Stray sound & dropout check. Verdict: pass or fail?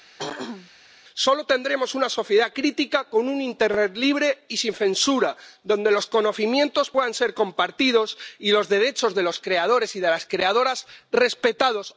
fail